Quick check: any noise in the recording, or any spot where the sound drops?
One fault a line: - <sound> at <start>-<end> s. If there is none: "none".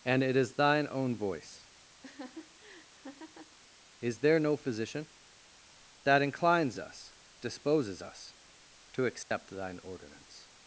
- laugh at 2.0-3.6 s
- dropout at 9.2-9.3 s